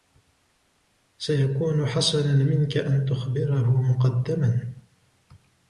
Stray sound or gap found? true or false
false